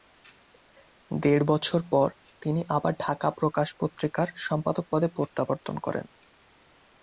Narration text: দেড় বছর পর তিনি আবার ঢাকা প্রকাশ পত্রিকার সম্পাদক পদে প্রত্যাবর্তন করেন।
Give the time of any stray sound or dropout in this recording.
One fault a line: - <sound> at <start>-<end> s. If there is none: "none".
none